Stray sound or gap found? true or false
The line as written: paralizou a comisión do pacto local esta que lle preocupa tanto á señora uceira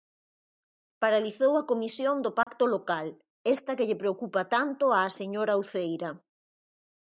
true